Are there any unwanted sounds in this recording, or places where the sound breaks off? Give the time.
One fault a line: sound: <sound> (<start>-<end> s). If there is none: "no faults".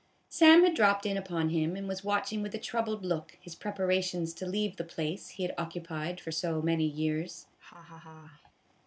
sound: laugh (7.6-8.5 s)